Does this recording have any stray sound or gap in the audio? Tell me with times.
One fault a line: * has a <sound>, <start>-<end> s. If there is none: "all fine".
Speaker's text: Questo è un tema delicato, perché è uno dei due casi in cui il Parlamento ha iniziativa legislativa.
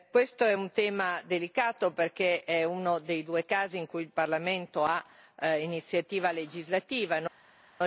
all fine